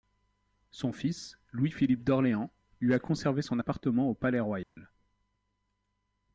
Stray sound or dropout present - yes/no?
yes